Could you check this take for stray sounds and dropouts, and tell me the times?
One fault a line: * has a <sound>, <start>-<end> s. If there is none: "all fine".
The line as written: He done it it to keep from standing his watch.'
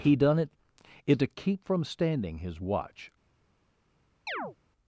* has a chirp, 4.3-4.6 s